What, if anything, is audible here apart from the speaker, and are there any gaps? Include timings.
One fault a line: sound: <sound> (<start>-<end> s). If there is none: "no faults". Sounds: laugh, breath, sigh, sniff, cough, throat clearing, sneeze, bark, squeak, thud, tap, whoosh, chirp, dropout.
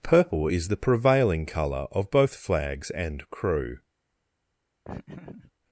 sound: laugh (4.8-5.5 s)